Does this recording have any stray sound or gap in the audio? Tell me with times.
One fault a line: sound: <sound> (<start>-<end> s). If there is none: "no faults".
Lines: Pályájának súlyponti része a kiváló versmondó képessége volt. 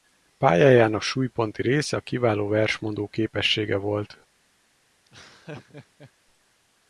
sound: laugh (5.0-6.1 s)